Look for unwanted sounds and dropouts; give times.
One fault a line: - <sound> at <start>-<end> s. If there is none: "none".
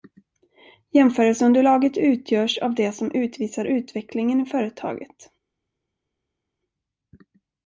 none